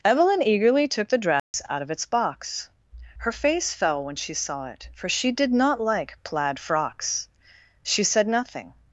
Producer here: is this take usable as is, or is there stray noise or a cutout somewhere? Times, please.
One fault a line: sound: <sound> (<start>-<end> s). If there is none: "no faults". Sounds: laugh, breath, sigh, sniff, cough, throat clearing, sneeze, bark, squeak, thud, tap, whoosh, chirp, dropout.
sound: dropout (1.4-1.5 s)